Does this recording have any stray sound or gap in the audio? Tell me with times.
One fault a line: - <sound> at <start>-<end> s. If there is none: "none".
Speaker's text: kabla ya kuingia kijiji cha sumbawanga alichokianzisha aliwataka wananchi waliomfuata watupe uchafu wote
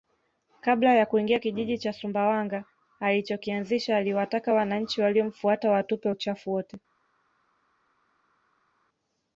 none